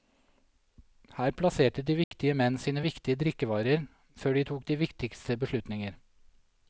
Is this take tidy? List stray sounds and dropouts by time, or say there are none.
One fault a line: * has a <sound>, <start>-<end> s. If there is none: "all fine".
* has a dropout, 2.0-2.1 s